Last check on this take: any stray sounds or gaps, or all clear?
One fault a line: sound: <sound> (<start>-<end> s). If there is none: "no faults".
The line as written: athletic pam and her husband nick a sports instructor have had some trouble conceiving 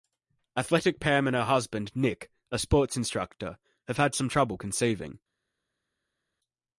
no faults